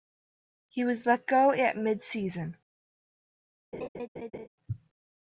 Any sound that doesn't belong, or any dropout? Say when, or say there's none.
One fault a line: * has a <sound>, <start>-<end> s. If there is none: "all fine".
* has a laugh, 3.7-4.5 s